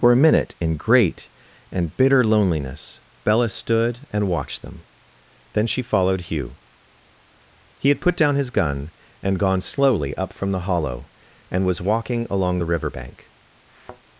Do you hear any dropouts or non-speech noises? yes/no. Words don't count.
yes